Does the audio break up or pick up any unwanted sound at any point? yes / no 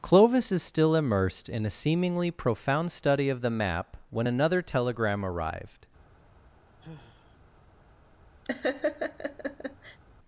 yes